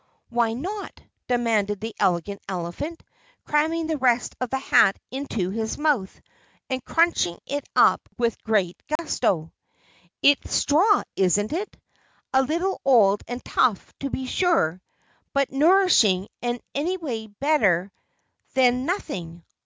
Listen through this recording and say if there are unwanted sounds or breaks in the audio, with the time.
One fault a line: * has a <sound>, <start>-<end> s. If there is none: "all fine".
* has a dropout, 9.0-9.0 s